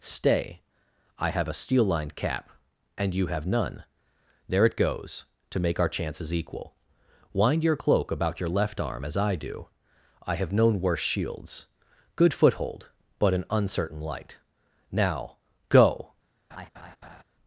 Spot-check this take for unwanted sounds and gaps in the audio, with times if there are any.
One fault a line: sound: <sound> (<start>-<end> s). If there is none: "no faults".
sound: laugh (16.5-17.2 s)